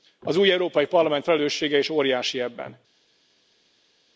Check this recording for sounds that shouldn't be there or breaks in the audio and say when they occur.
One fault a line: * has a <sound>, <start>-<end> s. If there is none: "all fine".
all fine